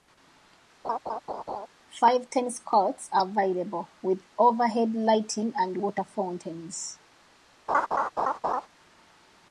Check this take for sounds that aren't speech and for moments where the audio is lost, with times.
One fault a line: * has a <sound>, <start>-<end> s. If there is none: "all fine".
* has a laugh, 0.8-1.7 s
* has a laugh, 7.7-8.7 s